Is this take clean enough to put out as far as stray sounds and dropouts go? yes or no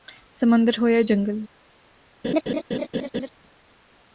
no